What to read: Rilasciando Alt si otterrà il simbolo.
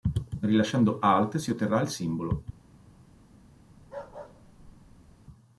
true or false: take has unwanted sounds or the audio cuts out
true